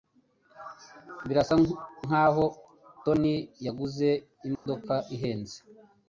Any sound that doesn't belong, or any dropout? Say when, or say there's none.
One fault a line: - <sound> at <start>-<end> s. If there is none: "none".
- dropout at 4.6-4.7 s